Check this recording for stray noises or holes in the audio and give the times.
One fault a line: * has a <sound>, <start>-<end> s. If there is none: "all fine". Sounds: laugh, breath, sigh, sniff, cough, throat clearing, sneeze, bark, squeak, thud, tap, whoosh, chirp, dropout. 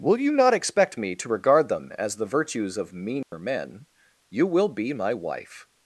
* has a dropout, 3.2-3.3 s